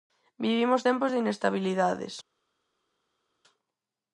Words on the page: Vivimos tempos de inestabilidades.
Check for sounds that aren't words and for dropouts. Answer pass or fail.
pass